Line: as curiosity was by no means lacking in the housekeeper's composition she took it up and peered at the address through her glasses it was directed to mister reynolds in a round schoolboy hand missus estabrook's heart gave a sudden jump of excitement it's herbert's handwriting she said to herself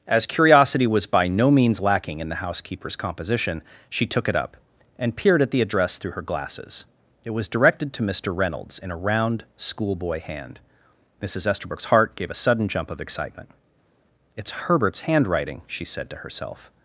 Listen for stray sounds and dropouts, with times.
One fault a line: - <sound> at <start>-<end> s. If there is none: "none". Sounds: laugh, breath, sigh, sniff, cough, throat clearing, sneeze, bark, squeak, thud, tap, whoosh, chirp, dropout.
none